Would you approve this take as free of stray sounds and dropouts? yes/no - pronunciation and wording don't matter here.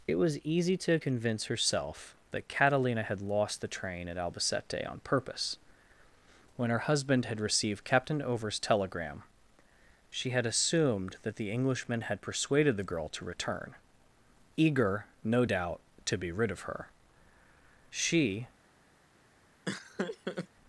no